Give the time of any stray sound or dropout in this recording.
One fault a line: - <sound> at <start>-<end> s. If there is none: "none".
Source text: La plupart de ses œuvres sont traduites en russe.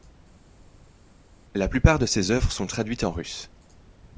none